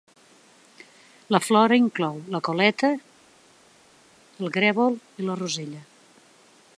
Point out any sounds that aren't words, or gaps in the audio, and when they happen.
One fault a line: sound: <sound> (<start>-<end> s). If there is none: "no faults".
no faults